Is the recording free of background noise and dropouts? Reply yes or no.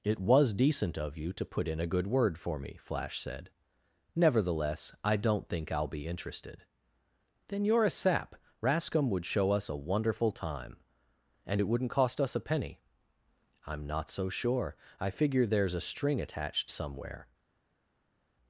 yes